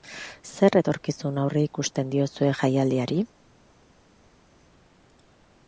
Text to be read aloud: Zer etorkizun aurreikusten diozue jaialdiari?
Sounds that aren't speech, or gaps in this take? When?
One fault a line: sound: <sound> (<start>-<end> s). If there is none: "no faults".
no faults